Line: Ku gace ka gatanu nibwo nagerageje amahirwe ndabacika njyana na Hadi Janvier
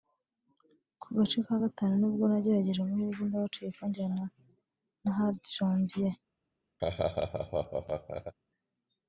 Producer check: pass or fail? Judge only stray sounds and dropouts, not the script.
fail